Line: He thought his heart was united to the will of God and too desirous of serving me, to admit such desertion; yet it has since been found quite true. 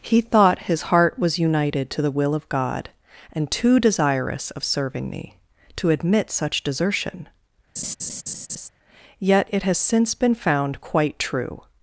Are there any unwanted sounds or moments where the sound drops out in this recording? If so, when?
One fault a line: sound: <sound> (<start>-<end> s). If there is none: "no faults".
sound: laugh (7.8-8.7 s)